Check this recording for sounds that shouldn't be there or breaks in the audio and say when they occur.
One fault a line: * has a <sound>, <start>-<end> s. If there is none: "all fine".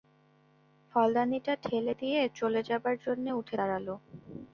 all fine